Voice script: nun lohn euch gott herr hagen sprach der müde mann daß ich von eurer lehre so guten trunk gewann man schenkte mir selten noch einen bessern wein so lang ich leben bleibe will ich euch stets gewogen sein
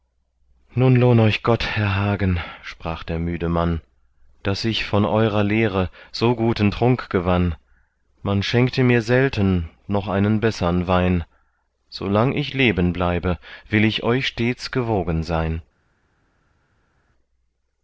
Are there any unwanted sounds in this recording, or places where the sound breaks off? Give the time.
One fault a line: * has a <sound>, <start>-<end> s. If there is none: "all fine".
all fine